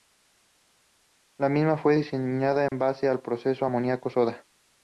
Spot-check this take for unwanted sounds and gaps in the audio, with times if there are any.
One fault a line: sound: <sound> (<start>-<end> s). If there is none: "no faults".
sound: dropout (2.7-2.7 s)